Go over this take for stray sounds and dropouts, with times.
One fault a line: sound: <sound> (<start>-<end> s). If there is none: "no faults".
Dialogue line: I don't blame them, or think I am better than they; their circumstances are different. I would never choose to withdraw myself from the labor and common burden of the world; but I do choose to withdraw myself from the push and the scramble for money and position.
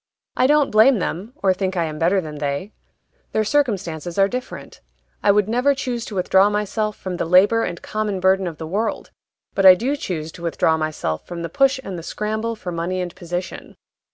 no faults